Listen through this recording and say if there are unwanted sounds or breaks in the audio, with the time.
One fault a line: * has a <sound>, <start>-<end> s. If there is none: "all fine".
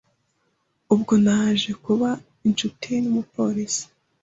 all fine